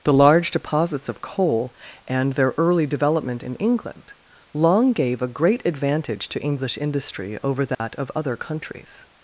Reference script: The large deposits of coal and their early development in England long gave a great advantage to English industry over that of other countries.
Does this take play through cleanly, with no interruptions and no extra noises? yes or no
no